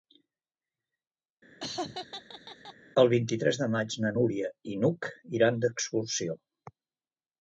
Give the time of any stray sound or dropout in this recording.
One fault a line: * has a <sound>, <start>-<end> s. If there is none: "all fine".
* has a laugh, 1.6-2.7 s